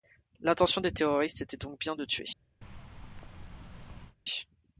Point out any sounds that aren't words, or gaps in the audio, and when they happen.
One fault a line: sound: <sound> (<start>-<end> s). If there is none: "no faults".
sound: thud (2.6-4.2 s)